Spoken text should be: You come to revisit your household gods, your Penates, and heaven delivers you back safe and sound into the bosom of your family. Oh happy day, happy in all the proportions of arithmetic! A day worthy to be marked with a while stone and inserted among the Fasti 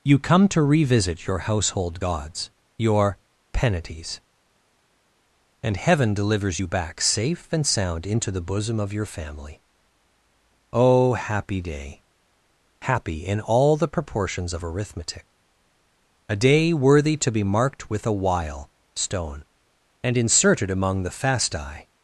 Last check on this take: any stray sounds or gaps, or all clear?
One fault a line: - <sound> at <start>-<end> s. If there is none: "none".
none